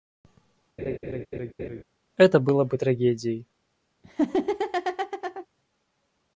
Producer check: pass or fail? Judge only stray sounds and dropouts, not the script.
fail